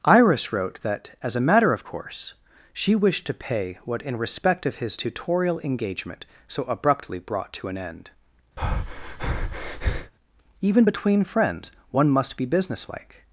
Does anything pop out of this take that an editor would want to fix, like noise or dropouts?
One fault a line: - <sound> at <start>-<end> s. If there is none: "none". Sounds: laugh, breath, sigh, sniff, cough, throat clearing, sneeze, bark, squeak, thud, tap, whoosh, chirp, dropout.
- breath at 8.6-10.1 s